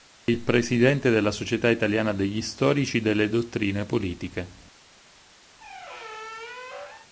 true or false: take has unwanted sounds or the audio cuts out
true